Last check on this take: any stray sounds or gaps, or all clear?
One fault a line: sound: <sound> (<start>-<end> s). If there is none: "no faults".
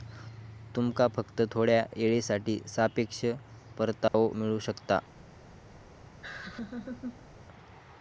sound: dropout (4.1-4.1 s)
sound: laugh (6.2-7.3 s)